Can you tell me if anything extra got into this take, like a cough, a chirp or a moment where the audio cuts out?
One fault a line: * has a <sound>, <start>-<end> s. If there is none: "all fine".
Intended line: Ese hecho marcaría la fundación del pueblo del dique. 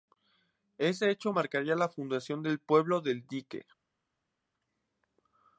all fine